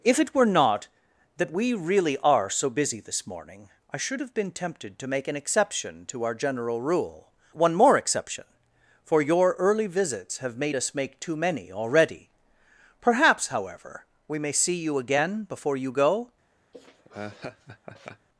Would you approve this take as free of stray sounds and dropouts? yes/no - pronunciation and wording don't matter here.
no